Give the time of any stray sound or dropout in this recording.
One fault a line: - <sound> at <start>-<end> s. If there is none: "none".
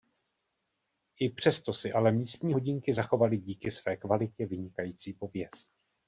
none